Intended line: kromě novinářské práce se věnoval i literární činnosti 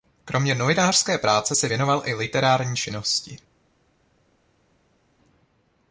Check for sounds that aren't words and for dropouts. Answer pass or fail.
pass